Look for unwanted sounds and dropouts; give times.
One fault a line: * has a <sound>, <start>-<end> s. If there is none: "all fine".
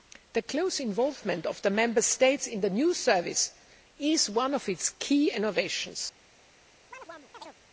* has a chirp, 6.9-7.6 s